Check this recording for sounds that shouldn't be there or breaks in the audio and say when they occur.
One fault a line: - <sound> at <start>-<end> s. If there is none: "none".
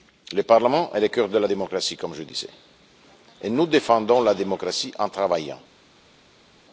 none